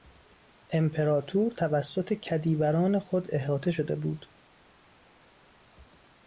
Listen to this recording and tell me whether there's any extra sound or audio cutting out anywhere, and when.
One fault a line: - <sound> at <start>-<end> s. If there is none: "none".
none